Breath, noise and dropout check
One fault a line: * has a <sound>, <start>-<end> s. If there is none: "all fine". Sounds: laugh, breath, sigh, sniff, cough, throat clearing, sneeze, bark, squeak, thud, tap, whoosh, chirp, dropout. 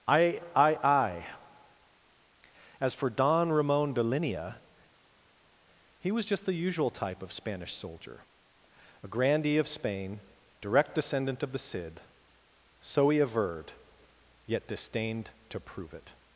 all fine